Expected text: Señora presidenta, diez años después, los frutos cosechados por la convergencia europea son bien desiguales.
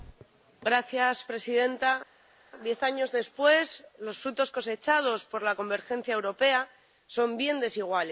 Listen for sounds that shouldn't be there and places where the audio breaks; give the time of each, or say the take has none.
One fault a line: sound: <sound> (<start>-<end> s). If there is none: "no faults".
no faults